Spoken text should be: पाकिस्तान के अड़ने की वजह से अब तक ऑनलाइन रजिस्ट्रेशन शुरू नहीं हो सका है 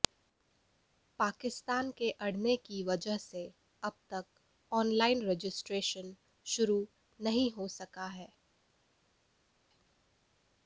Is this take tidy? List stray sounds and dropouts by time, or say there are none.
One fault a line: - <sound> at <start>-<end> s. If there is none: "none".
none